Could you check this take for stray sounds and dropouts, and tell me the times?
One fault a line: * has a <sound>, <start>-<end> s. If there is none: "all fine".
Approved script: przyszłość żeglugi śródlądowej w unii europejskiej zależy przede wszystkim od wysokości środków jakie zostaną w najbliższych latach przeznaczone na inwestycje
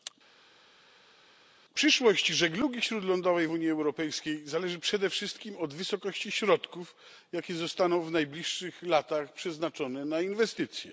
all fine